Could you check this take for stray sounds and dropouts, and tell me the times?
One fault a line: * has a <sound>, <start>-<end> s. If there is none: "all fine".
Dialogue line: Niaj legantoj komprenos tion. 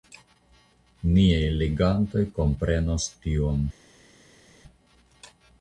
all fine